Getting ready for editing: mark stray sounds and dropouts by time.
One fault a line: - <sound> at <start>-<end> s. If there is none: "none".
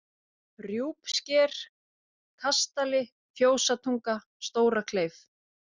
none